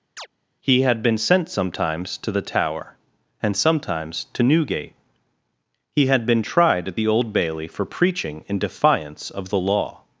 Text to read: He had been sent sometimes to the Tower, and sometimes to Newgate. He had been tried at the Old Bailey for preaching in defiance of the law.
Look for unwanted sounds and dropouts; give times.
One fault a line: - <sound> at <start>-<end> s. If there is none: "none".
- chirp at 0.2-0.3 s